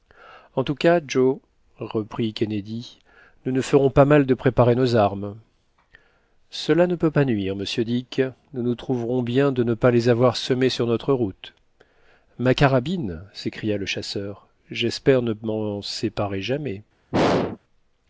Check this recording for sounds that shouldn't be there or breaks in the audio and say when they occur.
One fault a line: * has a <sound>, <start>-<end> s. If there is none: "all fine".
* has a throat clearing, 17.1-17.6 s